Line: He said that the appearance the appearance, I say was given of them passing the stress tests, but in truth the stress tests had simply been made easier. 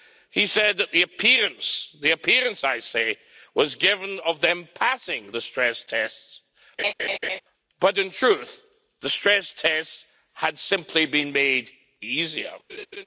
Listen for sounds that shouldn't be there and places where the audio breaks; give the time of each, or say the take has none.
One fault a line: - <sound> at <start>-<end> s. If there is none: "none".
- laugh at 6.8-7.4 s
- laugh at 12.7-13.1 s